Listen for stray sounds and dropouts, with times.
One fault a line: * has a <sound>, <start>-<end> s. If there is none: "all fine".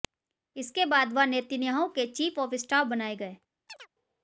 * has a chirp, 3.7-3.9 s